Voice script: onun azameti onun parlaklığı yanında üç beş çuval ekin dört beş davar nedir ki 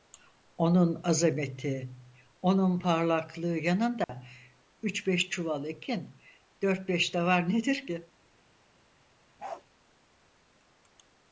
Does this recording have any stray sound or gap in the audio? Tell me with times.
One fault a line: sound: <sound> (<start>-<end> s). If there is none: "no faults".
sound: dropout (4.0-4.1 s)
sound: bark (9.4-9.6 s)